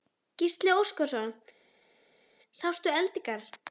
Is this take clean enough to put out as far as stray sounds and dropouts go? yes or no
yes